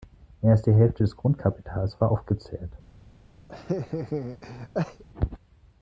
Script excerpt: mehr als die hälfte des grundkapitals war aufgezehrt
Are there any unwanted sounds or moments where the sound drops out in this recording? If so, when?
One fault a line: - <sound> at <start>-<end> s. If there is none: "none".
- laugh at 3.5-5.0 s